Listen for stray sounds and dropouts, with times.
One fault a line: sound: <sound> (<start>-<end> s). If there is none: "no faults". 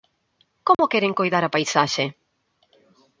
sound: dropout (0.7-0.8 s)